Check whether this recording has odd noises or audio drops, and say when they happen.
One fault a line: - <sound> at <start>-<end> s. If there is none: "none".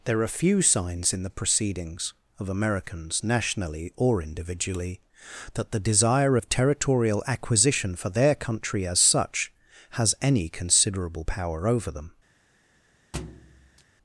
- thud at 13.1-13.8 s